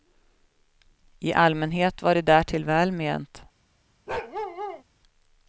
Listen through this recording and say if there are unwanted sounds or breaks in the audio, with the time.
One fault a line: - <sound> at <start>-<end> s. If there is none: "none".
- bark at 4.1-4.8 s